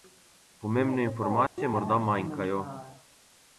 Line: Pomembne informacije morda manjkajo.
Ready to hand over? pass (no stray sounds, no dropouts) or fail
fail